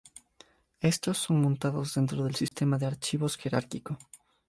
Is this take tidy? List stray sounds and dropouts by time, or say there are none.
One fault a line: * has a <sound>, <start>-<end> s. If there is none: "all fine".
* has a dropout, 2.5-2.5 s